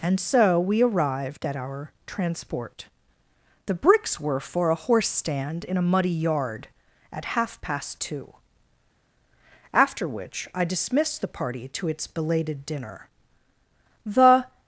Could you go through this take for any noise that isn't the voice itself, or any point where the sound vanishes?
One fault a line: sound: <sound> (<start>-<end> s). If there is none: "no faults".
no faults